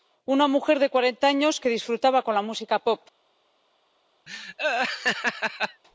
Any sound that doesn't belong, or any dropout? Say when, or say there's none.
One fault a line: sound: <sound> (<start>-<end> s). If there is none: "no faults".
sound: laugh (4.3-5.8 s)